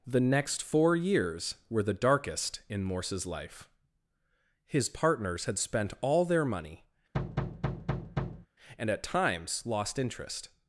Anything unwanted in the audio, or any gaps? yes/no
yes